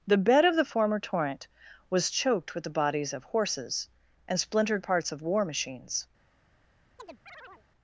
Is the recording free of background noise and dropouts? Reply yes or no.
no